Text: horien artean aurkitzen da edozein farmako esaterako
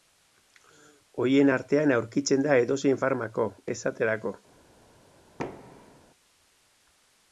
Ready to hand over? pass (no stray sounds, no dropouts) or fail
fail